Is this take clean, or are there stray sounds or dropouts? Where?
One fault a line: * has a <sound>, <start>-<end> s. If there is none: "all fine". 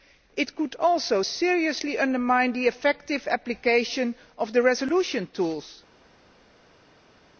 all fine